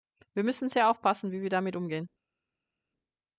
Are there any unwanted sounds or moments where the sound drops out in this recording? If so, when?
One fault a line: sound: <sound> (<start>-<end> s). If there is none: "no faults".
no faults